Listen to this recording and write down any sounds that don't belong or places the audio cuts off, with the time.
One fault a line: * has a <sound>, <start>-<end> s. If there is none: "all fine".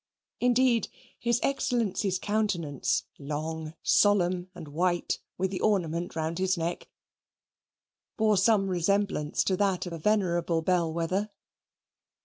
all fine